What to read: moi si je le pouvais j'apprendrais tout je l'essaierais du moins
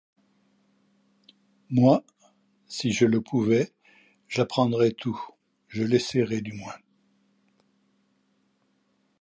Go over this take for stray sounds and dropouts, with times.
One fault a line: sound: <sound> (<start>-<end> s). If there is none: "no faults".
no faults